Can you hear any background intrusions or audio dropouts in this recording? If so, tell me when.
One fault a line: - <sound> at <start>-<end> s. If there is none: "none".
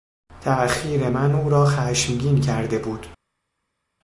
none